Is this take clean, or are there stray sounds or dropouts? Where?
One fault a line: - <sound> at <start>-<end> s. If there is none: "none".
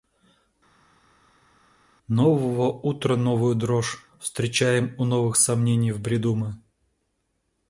none